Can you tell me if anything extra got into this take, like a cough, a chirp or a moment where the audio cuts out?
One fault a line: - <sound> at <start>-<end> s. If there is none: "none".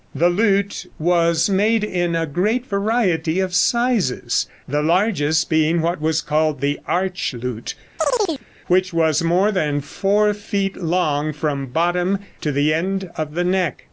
- chirp at 8.0-8.5 s